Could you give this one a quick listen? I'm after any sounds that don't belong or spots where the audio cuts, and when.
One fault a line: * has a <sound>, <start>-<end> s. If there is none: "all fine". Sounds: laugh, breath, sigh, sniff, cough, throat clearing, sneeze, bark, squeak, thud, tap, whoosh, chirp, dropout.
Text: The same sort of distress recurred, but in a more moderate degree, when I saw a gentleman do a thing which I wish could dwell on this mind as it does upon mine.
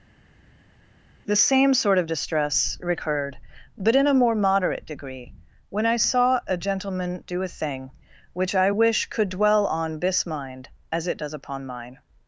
all fine